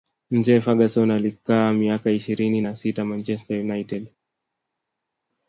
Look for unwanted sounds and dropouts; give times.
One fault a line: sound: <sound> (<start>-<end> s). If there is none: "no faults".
no faults